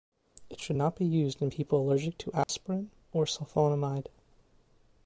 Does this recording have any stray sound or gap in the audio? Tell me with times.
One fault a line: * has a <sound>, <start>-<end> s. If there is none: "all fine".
* has a dropout, 2.4-2.5 s